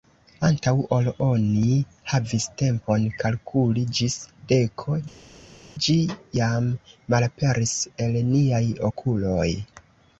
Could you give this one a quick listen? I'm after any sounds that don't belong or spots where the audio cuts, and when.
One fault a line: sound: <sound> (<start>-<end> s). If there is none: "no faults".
no faults